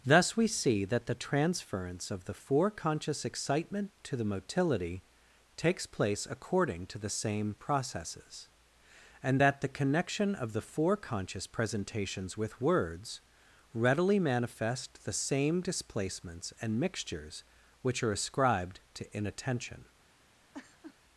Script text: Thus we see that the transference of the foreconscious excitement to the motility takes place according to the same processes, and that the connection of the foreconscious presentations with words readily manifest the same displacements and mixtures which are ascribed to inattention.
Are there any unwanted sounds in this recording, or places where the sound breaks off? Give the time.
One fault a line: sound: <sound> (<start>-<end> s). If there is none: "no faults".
sound: laugh (20.5-21.0 s)